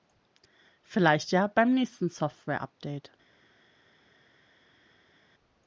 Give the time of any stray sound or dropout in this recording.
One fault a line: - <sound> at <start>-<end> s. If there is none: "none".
none